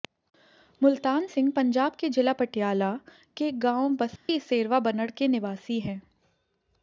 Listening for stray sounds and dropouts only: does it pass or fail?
fail